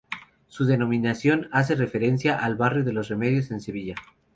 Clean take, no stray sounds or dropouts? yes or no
yes